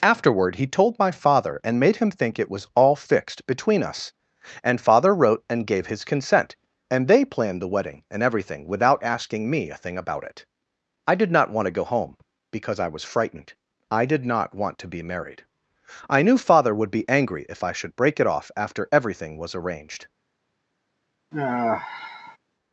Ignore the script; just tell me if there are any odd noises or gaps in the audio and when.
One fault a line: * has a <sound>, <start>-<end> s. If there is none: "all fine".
* has a sigh, 21.3-22.4 s